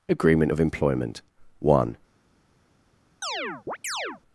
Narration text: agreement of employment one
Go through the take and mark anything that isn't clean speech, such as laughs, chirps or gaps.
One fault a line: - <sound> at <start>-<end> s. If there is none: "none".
- chirp at 3.2-4.2 s